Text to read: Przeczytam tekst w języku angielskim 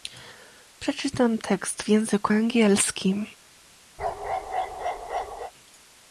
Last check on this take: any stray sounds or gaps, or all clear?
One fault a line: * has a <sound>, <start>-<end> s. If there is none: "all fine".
* has a bark, 4.0-5.5 s